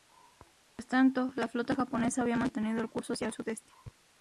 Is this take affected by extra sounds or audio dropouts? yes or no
no